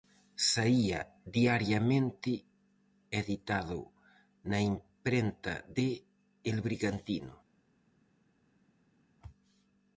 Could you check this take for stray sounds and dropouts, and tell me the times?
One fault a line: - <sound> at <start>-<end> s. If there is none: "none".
none